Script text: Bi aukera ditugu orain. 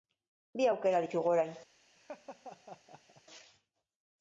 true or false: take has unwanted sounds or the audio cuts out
true